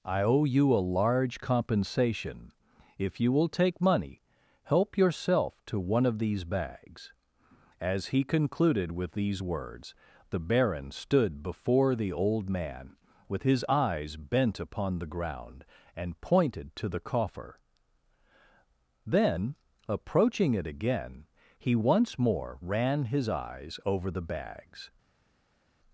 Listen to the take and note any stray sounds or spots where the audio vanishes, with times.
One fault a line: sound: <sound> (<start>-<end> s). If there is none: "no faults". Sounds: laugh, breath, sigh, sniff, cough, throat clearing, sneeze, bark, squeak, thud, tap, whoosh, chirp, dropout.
no faults